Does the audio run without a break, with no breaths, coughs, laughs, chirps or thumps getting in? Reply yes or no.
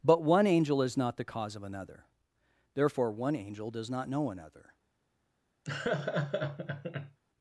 no